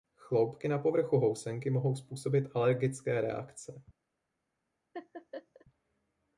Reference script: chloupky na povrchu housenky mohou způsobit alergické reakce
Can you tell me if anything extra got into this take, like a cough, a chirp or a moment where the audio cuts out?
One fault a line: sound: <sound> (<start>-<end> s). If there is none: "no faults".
sound: laugh (4.9-5.7 s)